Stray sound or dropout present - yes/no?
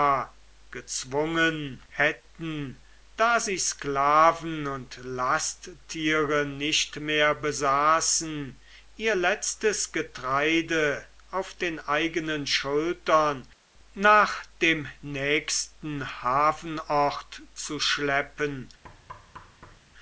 yes